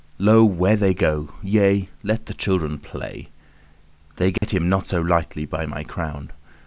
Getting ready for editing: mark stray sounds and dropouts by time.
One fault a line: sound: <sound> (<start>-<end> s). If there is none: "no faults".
sound: dropout (4.4-4.4 s)